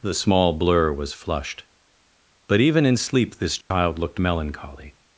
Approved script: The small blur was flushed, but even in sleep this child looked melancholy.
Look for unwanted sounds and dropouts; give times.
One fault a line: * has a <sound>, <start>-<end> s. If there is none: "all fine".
* has a dropout, 3.6-3.7 s